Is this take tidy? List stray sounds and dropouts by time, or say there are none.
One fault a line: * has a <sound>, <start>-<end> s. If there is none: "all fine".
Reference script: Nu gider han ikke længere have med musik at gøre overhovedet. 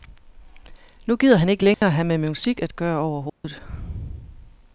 * has a dropout, 1.7-1.8 s
* has a dropout, 3.3-3.4 s